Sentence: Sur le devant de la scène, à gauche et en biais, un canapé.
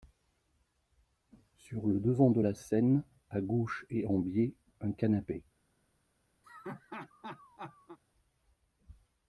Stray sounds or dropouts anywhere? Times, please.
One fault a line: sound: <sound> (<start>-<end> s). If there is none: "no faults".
sound: laugh (6.4-8.0 s)